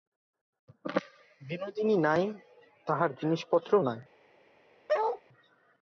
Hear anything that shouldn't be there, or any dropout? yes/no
yes